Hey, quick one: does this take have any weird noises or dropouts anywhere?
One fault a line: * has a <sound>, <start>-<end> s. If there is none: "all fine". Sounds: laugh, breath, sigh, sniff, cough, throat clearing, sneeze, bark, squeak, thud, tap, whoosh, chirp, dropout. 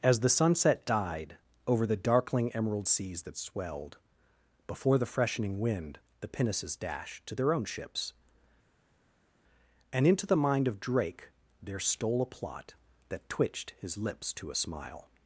all fine